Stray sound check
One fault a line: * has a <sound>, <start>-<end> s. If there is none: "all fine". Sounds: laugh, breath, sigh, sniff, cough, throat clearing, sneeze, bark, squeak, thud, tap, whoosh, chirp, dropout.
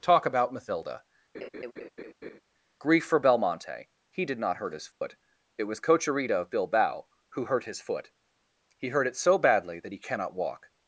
* has a laugh, 1.3-2.4 s
* has a dropout, 4.9-5.0 s